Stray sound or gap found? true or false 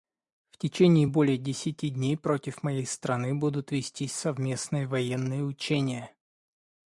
false